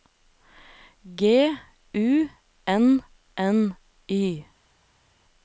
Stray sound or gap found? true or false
false